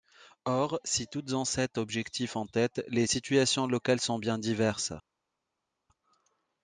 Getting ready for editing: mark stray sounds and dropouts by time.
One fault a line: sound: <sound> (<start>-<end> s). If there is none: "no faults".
no faults